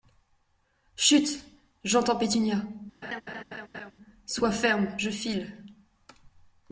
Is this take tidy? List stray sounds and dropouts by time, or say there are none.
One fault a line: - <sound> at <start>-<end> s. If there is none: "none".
- laugh at 3.0-3.9 s